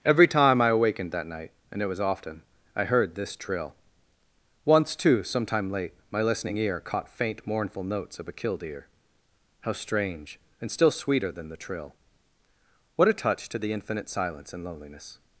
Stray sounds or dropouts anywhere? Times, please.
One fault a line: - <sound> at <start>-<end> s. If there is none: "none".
none